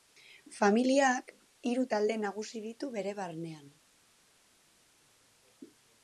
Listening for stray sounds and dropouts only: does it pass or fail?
pass